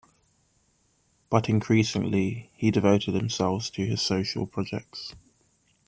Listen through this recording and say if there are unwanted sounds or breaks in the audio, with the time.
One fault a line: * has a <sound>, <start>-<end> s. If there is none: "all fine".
all fine